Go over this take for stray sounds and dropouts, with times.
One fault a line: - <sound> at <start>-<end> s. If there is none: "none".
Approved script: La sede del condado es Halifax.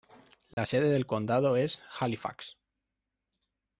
- dropout at 0.5-0.6 s